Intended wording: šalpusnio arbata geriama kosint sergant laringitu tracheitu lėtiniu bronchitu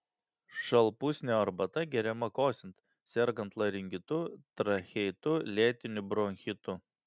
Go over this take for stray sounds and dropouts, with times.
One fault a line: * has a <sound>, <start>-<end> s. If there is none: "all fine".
all fine